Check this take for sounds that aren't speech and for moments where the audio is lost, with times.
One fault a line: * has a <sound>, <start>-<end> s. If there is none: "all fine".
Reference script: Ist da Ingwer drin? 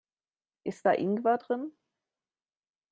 all fine